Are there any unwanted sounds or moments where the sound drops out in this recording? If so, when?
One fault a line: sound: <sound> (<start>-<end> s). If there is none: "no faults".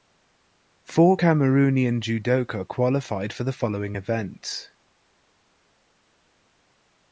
no faults